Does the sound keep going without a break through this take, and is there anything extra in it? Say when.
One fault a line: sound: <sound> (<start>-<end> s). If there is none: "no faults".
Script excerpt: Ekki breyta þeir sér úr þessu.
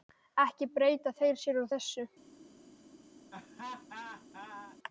sound: laugh (3.3-4.8 s)